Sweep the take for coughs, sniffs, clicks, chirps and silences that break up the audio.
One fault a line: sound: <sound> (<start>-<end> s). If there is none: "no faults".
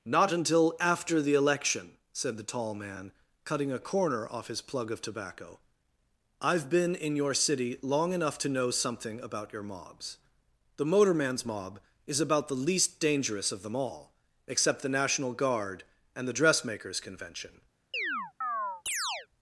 sound: chirp (17.9-19.3 s)